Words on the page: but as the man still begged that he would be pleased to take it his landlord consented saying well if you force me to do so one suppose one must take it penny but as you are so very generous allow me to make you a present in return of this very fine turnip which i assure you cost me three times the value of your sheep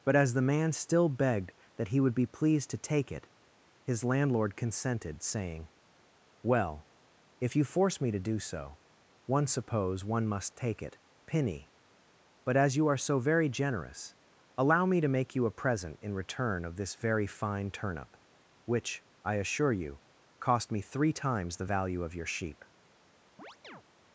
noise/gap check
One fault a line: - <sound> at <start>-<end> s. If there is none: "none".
- chirp at 23.4-23.8 s